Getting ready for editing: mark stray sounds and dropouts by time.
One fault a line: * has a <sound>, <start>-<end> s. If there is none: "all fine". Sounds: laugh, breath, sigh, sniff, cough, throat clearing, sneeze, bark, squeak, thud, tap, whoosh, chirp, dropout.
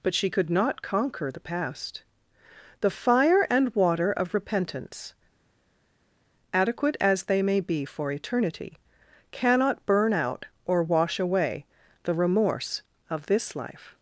all fine